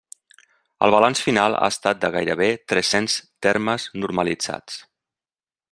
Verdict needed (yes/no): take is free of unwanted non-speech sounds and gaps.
yes